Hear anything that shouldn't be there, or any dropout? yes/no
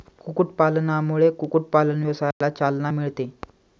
yes